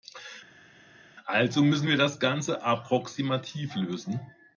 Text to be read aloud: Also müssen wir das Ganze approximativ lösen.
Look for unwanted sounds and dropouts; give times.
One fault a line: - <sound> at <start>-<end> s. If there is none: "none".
none